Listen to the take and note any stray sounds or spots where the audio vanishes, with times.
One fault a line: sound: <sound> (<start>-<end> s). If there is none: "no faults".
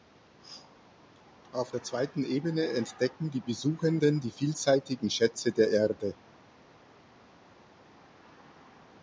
no faults